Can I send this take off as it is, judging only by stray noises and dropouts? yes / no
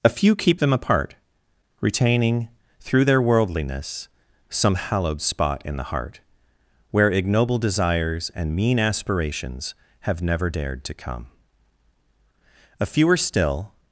yes